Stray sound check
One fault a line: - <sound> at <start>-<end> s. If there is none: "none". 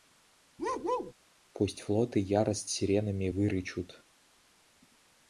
- bark at 0.6-1.1 s